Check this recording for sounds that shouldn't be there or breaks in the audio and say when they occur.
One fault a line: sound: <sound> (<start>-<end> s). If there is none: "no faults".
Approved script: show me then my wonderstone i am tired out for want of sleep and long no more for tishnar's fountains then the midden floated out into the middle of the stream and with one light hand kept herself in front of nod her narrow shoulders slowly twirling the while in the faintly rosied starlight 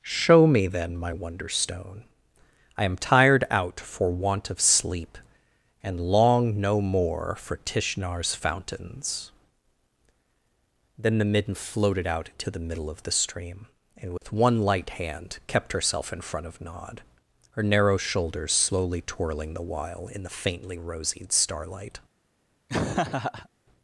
sound: dropout (14.2-14.2 s)
sound: laugh (22.7-23.5 s)